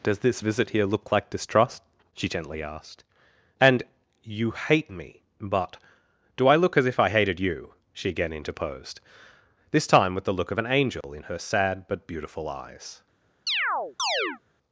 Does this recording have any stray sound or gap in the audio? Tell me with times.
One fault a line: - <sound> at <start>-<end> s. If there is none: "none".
- dropout at 11.0-11.0 s
- chirp at 13.5-14.4 s